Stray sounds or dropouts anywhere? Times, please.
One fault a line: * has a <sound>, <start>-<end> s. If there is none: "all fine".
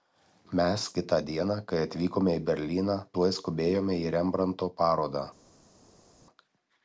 all fine